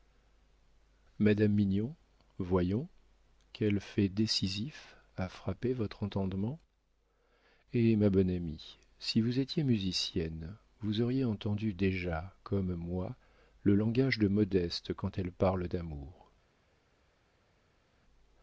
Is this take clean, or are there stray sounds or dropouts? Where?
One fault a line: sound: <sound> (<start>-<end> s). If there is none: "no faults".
no faults